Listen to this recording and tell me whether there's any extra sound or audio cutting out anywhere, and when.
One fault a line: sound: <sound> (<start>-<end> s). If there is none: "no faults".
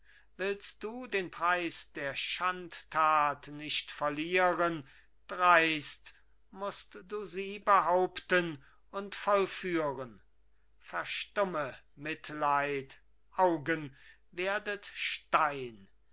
no faults